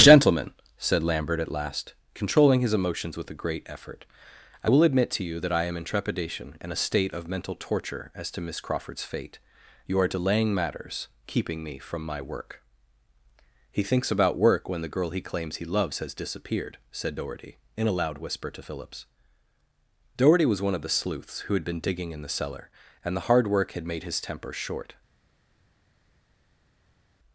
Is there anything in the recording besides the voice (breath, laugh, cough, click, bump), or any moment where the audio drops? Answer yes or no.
no